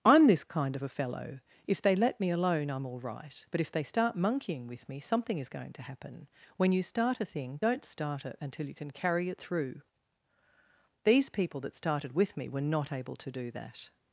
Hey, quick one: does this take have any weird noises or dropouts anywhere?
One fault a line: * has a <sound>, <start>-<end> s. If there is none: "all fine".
all fine